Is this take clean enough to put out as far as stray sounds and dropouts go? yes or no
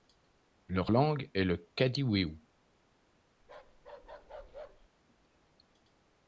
no